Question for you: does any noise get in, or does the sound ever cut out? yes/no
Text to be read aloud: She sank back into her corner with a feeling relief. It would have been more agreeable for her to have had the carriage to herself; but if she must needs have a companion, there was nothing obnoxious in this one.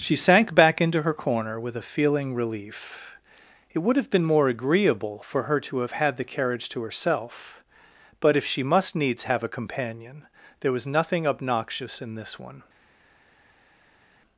no